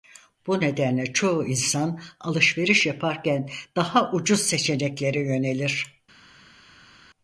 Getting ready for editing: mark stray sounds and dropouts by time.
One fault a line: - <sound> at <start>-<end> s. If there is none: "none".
none